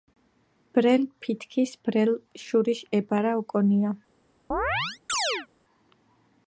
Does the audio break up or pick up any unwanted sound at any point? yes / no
yes